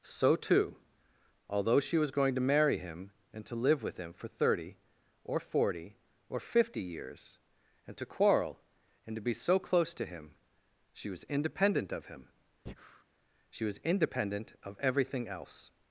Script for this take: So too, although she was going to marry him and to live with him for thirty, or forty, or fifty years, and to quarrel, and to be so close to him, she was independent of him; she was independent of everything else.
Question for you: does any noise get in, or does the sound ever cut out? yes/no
yes